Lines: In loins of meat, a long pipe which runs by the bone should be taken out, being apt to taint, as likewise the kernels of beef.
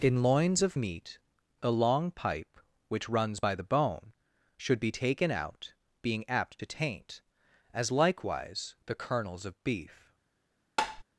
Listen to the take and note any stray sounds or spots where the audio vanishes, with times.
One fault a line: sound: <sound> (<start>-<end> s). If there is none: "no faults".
sound: tap (10.8-11.0 s)